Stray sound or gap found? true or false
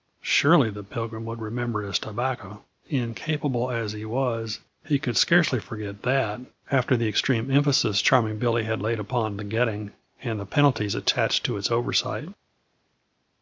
false